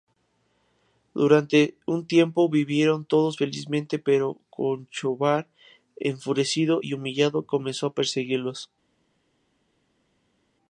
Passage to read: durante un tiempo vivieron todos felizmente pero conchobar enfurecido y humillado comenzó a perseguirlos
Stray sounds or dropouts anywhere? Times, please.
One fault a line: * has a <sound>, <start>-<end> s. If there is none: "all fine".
all fine